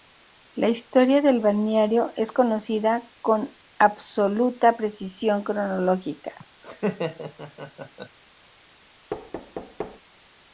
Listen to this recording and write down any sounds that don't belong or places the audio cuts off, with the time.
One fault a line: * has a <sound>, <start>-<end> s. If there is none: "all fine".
* has a laugh, 6.6-8.2 s
* has a thud, 9.1-10.0 s